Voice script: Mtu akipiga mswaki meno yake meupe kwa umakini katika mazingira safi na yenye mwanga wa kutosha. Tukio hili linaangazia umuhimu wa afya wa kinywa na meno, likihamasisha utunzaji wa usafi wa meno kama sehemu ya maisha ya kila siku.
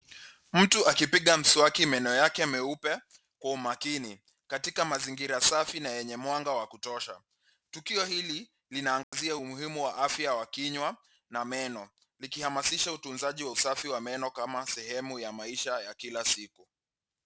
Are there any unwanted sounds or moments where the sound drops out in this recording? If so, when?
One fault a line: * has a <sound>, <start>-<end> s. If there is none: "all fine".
* has a dropout, 9.0-9.1 s